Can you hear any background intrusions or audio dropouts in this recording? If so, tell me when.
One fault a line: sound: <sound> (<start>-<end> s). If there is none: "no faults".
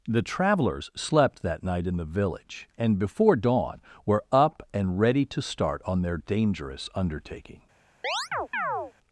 sound: chirp (8.0-8.9 s)